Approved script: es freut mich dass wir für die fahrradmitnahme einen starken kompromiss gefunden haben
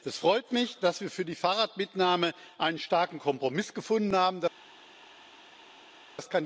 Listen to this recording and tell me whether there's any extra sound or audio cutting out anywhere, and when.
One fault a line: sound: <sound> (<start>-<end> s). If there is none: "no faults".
no faults